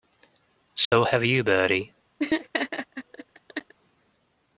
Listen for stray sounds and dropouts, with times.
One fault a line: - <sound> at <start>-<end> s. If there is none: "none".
- dropout at 0.8-0.9 s
- laugh at 2.2-3.7 s